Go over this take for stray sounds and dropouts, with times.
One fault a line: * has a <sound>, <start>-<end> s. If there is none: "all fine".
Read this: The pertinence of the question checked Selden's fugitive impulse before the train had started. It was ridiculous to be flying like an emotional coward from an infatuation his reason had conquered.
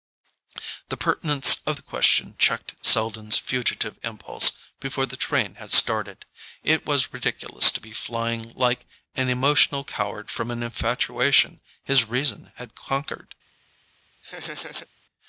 * has a laugh, 14.2-14.9 s